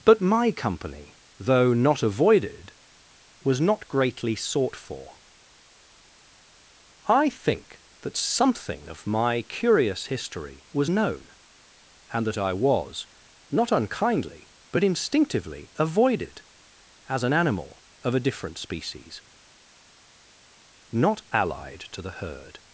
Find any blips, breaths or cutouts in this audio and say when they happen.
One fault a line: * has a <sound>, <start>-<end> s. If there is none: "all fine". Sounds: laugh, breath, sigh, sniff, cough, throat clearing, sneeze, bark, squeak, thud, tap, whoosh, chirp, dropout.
all fine